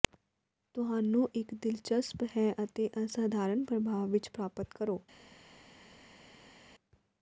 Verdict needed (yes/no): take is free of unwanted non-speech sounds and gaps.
yes